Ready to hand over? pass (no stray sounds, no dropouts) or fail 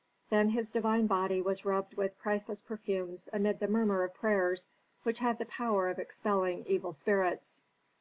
pass